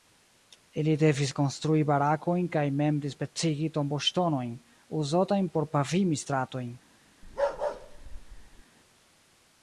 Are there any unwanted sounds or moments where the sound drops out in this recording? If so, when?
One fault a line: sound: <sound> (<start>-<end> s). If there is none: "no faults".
sound: bark (7.2-8.6 s)